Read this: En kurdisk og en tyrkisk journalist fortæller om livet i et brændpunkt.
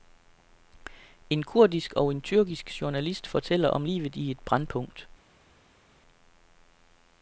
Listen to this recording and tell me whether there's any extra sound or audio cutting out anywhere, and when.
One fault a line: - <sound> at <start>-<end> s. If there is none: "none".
none